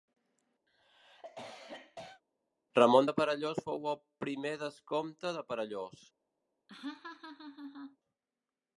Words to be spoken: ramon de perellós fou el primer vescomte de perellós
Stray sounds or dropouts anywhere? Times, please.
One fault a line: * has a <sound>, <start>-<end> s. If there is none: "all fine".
* has a cough, 0.7-2.2 s
* has a laugh, 6.7-8.0 s